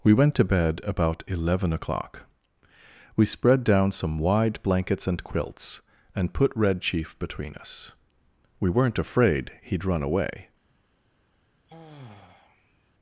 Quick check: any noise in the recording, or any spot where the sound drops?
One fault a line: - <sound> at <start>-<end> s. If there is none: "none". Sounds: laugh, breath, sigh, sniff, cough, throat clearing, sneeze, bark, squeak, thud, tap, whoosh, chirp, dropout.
- sigh at 11.7-12.9 s